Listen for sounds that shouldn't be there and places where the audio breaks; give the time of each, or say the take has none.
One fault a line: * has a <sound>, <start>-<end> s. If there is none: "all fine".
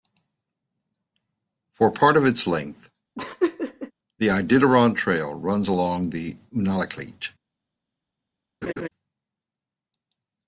* has a laugh, 3.2-3.9 s
* has a laugh, 8.6-8.9 s